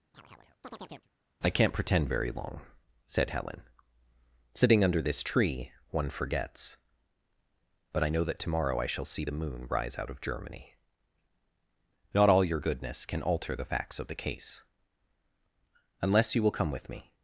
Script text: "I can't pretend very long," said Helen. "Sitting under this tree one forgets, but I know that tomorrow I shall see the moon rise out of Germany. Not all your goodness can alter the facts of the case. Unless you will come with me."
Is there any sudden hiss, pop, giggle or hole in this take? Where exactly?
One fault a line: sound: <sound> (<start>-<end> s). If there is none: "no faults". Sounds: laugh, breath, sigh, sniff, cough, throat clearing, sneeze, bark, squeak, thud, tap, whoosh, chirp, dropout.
sound: chirp (0.1-1.1 s)